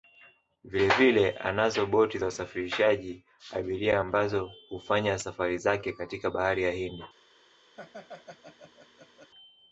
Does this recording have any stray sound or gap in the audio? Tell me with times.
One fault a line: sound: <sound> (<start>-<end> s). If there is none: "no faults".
sound: laugh (7.8-9.3 s)